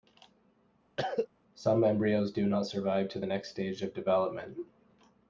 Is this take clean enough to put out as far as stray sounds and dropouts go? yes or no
no